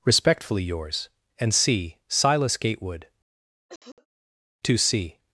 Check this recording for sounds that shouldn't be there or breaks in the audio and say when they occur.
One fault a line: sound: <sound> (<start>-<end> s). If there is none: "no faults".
sound: cough (3.7-4.1 s)